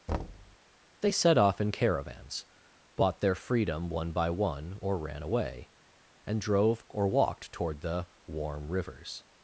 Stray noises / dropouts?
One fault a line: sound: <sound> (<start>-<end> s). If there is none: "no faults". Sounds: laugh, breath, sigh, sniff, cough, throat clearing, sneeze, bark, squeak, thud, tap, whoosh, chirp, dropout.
sound: thud (0.1-0.6 s)